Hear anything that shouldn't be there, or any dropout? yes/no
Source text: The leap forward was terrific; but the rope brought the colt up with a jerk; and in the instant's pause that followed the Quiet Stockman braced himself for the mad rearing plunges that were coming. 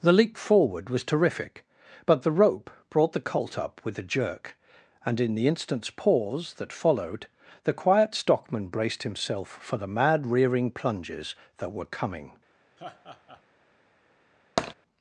yes